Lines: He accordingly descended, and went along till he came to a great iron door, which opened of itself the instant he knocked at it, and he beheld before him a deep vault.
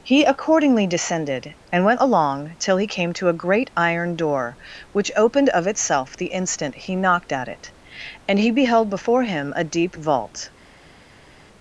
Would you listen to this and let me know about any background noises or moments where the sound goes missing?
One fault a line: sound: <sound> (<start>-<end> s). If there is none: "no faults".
no faults